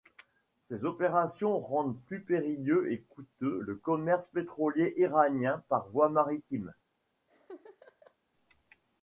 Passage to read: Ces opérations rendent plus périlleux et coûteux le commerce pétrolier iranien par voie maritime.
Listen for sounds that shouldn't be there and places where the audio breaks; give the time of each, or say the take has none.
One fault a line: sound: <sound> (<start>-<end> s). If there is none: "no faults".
sound: laugh (7.3-8.2 s)